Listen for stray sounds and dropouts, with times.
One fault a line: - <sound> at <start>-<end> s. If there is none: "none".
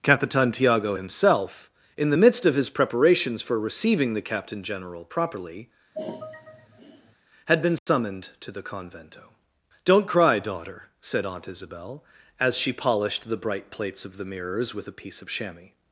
- sigh at 5.9-7.2 s
- dropout at 7.8-7.9 s